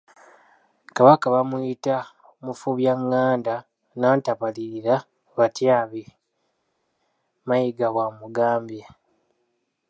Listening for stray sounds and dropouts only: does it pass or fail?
pass